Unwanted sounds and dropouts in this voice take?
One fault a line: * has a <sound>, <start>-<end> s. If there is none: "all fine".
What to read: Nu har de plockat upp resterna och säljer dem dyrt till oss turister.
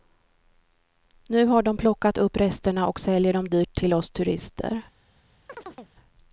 * has a chirp, 5.5-5.9 s